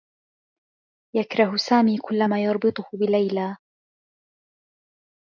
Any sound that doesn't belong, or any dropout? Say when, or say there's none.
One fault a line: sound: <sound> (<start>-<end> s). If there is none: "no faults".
no faults